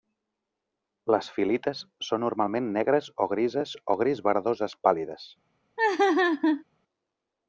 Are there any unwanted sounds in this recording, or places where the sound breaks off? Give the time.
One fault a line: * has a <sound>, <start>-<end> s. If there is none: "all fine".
* has a laugh, 5.8-6.6 s